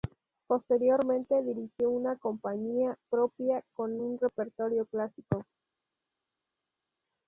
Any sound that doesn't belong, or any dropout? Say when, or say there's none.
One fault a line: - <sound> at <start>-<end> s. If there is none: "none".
none